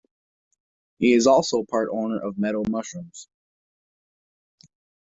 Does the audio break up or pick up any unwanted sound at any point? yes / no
no